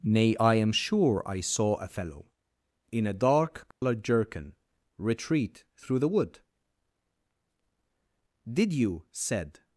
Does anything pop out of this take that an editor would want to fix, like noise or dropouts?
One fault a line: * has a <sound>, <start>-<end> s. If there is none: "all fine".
* has a dropout, 3.7-3.8 s